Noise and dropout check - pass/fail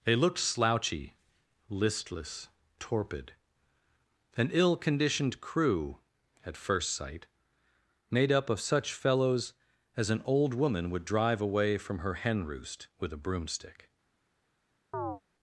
fail